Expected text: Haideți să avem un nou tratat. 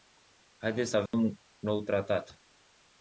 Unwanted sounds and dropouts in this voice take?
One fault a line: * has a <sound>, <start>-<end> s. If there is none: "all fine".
* has a dropout, 1.1-1.1 s